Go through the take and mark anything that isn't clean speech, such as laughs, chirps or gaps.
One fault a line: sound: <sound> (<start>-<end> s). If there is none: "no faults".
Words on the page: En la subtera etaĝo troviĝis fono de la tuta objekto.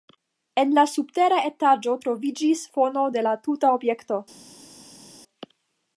no faults